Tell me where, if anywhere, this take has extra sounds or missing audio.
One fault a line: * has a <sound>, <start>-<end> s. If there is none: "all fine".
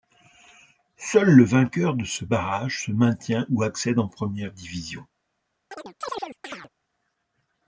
* has a chirp, 5.7-6.7 s